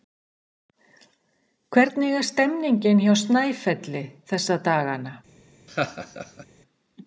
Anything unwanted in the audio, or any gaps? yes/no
yes